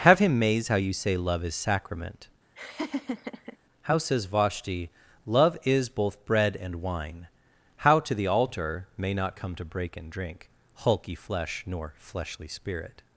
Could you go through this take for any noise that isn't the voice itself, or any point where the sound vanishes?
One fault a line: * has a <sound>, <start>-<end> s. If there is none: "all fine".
* has a laugh, 2.6-3.6 s